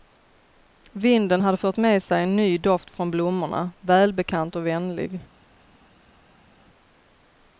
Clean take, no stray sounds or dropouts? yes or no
yes